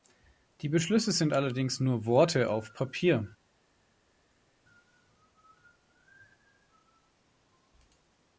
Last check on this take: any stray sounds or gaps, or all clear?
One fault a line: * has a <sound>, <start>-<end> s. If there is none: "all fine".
all fine